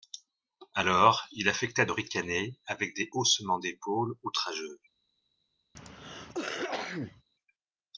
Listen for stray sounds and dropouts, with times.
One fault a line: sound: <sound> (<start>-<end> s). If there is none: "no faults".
sound: cough (5.7-7.2 s)